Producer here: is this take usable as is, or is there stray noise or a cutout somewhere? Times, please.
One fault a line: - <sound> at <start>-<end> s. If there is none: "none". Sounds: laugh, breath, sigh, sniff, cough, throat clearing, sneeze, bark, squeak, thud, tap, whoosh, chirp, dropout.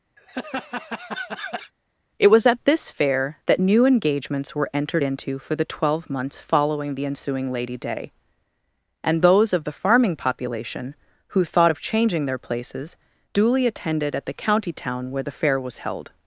- laugh at 0.2-1.7 s